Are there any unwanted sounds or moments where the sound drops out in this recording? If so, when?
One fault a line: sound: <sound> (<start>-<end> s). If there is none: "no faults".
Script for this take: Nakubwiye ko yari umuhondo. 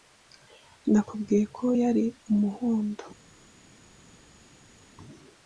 no faults